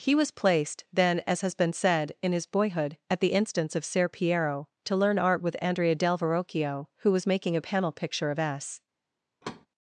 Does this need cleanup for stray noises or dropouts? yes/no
yes